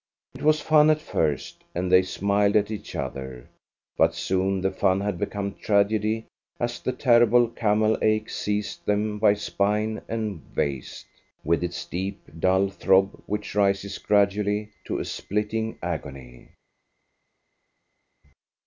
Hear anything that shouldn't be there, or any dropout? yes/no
no